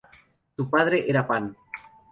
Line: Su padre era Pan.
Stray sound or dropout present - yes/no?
no